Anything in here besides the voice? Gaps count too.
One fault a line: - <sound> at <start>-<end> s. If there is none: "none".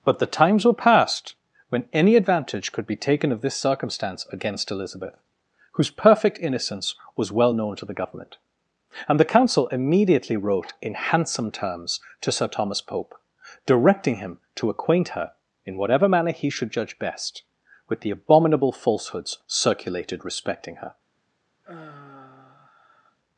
- sigh at 21.6-23.2 s